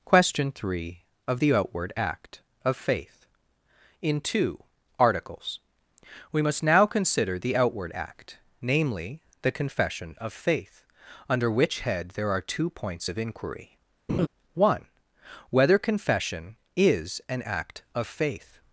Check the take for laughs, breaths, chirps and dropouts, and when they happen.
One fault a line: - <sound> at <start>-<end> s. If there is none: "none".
- laugh at 14.1-14.3 s